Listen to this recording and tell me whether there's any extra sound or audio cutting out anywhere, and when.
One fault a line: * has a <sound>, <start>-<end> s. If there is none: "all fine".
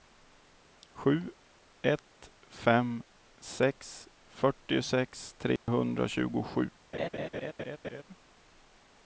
* has a dropout, 5.6-5.7 s
* has a laugh, 6.9-8.0 s